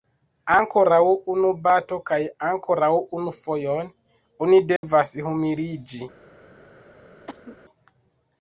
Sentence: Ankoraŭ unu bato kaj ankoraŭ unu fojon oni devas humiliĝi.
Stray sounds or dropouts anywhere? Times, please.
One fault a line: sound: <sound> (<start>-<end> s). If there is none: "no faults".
sound: dropout (4.8-4.8 s)
sound: cough (7.3-7.6 s)